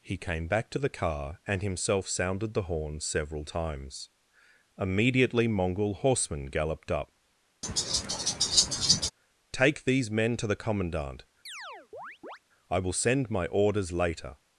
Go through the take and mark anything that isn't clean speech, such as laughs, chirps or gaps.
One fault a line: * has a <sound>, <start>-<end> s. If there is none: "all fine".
* has a laugh, 7.6-9.1 s
* has a chirp, 11.5-12.4 s